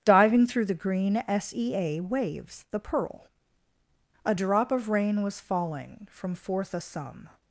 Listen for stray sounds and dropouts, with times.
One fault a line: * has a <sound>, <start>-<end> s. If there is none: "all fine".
all fine